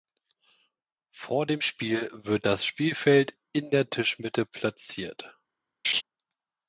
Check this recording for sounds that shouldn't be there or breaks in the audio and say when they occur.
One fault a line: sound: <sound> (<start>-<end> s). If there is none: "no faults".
sound: laugh (5.8-6.0 s)